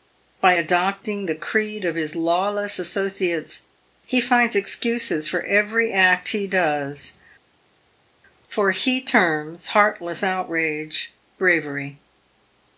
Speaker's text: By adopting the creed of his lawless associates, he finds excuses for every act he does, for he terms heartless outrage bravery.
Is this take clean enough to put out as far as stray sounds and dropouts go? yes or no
yes